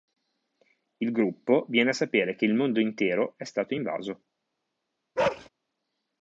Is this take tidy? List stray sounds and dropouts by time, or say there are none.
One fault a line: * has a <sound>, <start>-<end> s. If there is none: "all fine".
* has a bark, 5.2-5.5 s